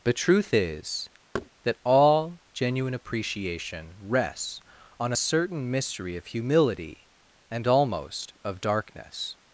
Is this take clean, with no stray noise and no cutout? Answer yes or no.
no